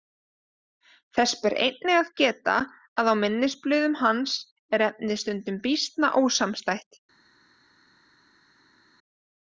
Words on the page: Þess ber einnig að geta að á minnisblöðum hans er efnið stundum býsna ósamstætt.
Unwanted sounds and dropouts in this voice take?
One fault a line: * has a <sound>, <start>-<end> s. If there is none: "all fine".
all fine